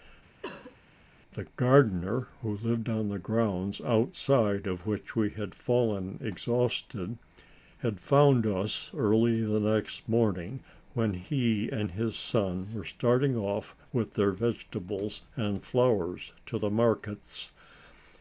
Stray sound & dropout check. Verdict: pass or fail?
fail